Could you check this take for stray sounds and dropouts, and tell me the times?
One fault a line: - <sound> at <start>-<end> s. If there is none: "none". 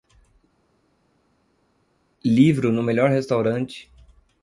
none